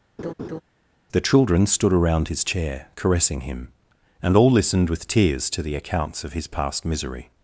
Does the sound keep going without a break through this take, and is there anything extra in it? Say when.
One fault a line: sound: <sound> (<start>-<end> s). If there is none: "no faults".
sound: laugh (0.2-0.6 s)